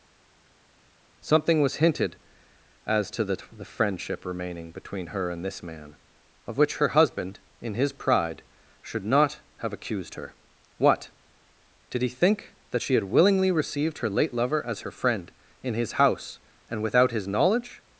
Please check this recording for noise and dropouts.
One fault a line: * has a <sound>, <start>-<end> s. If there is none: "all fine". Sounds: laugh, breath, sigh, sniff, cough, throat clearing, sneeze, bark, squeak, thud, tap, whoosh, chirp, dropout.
all fine